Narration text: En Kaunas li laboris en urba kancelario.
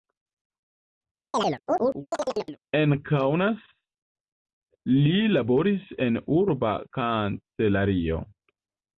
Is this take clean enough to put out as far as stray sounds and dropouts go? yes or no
no